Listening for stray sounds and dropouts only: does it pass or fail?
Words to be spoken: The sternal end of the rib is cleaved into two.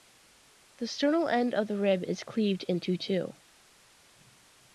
pass